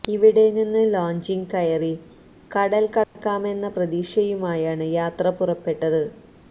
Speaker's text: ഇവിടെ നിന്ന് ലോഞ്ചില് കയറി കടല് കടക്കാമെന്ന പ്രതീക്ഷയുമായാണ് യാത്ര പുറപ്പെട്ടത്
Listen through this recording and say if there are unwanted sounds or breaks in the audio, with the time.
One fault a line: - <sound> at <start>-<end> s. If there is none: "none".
- dropout at 3.0-3.2 s